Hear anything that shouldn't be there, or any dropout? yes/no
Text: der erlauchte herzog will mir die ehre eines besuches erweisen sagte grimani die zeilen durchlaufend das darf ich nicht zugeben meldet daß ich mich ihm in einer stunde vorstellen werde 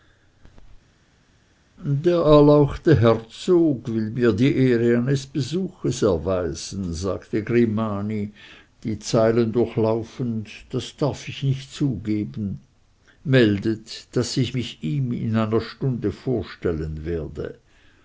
no